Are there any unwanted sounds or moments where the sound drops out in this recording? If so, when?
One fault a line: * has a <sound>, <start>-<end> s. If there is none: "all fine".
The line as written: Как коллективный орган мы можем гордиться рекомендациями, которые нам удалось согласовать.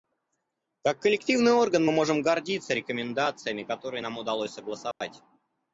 * has a dropout, 4.9-5.0 s